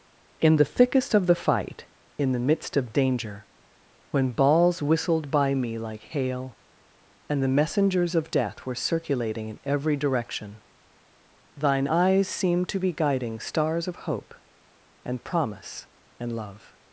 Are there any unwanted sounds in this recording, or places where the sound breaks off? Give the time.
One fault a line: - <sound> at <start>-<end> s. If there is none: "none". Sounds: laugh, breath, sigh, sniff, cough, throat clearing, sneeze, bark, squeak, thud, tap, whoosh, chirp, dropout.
none